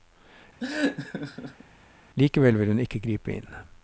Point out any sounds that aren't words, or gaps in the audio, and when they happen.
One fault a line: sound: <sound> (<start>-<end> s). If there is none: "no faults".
sound: laugh (0.6-1.6 s)